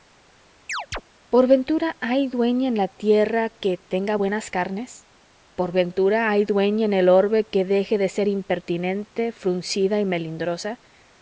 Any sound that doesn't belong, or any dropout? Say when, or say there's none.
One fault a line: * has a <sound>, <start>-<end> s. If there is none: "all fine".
* has a chirp, 0.7-1.0 s